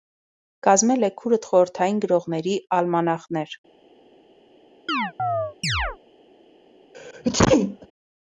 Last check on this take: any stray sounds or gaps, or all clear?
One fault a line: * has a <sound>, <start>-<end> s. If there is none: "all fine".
* has a chirp, 4.9-6.0 s
* has a sneeze, 6.9-7.9 s